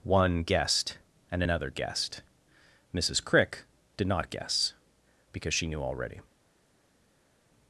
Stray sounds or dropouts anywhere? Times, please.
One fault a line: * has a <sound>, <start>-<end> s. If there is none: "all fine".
all fine